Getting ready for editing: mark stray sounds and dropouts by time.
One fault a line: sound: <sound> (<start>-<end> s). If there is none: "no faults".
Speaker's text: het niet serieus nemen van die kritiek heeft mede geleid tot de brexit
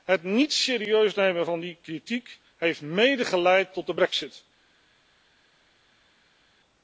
no faults